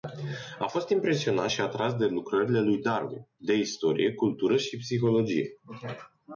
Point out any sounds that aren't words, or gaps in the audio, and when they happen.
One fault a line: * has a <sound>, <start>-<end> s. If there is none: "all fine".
all fine